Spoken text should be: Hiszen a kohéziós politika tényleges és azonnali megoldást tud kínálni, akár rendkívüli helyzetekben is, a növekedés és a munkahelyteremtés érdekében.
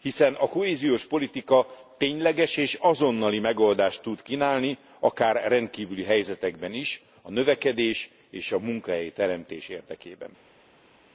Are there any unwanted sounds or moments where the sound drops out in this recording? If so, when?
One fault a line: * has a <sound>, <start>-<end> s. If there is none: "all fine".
all fine